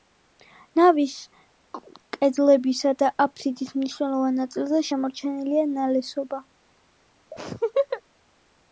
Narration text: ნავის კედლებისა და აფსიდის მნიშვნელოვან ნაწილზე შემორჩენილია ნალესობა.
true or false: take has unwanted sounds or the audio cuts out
true